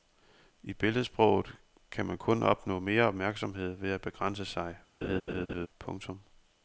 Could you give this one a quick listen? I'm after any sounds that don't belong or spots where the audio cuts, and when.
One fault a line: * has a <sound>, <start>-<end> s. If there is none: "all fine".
* has a laugh, 5.0-5.7 s